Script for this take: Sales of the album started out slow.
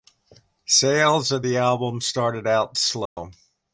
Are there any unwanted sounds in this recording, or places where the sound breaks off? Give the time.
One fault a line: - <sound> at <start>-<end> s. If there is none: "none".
- dropout at 3.1-3.2 s